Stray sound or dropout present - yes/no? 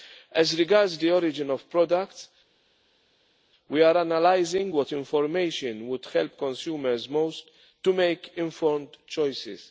no